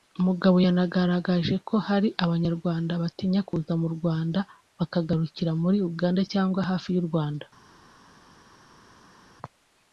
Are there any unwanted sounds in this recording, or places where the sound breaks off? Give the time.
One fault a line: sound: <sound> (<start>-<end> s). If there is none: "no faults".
no faults